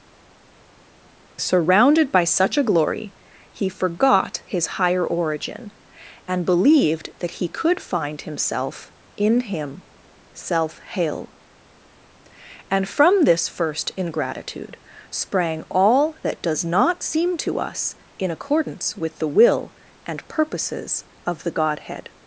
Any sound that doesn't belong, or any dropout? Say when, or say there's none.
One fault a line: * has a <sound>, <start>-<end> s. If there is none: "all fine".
all fine